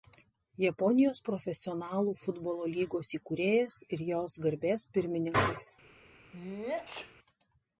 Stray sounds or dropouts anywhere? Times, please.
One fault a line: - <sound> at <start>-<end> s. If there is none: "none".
- sneeze at 6.3-7.2 s